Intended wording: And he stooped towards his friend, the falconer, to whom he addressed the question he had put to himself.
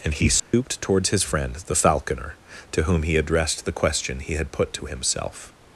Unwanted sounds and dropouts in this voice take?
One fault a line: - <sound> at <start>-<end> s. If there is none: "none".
- dropout at 0.4-0.5 s